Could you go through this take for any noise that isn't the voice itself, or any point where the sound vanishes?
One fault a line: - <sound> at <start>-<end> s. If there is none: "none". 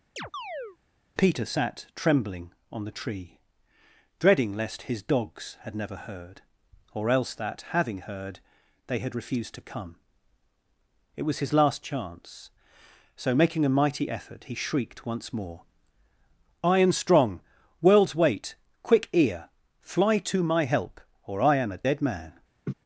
- chirp at 0.2-0.8 s
- laugh at 22.7-22.7 s